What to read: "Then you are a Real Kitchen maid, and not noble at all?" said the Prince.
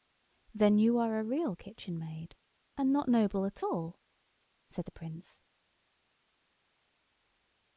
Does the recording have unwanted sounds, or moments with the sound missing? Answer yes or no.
no